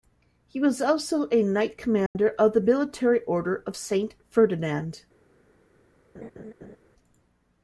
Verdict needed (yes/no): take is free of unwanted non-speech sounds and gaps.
no